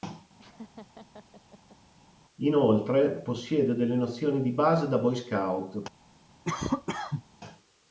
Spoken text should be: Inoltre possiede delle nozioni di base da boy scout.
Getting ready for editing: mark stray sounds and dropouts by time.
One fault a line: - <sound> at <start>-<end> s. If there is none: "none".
- laugh at 0.4-1.8 s
- cough at 6.4-7.2 s